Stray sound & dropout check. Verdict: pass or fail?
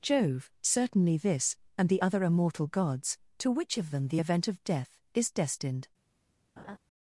fail